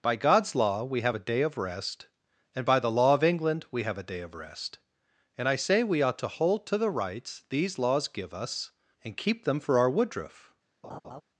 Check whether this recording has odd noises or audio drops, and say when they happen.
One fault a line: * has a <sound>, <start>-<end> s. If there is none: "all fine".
* has a laugh, 10.8-11.2 s